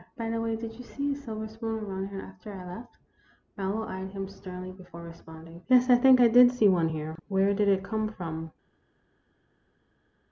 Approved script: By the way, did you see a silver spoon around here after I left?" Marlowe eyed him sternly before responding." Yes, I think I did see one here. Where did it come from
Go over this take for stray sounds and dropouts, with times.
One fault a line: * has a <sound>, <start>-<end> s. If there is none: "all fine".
all fine